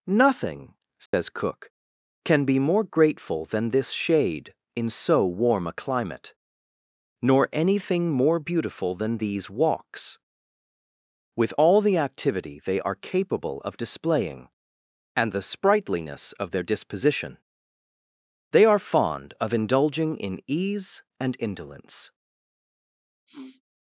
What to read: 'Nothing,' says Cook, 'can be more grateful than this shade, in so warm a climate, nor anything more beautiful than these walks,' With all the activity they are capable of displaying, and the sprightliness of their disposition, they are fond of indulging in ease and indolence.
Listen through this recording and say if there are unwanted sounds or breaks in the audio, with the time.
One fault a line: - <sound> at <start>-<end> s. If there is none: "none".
- dropout at 1.1-1.1 s
- sniff at 23.3-23.6 s